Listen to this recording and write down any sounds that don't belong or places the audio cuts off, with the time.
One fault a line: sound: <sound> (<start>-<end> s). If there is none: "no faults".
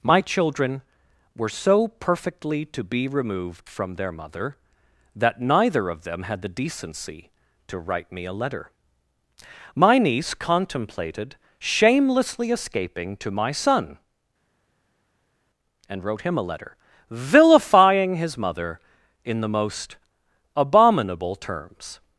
no faults